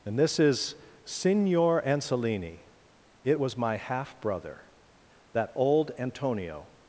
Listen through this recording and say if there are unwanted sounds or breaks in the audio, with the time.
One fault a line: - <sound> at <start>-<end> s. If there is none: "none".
none